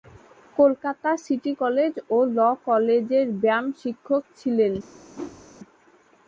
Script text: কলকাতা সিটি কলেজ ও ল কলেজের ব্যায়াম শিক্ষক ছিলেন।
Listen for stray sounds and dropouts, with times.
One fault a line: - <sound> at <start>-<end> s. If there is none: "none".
- whoosh at 5.1-5.5 s